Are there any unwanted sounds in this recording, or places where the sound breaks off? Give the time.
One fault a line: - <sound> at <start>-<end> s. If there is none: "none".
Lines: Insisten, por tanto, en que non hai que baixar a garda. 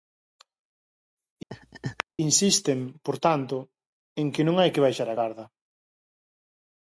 - laugh at 1.5-2.0 s